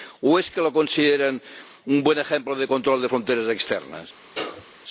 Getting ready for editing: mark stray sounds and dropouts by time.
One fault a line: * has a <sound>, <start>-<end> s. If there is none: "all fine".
* has a sneeze, 4.3-4.7 s